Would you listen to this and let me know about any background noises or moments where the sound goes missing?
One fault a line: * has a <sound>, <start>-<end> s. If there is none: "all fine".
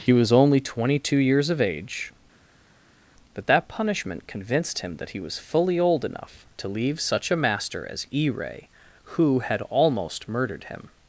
all fine